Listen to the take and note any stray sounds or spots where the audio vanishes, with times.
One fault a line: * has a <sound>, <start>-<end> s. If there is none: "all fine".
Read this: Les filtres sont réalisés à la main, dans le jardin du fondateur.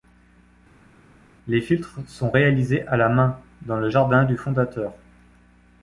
all fine